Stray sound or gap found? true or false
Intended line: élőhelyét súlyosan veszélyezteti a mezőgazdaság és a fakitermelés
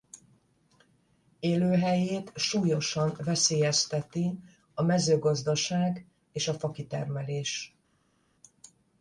false